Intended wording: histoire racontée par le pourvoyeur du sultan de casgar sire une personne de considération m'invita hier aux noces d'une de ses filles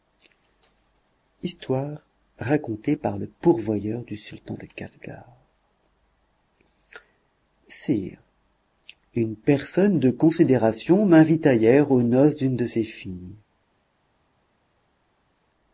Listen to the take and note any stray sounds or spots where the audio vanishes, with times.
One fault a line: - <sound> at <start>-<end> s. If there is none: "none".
none